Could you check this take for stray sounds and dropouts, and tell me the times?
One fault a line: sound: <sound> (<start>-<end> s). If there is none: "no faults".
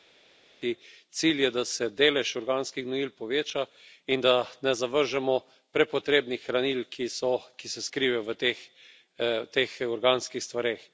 no faults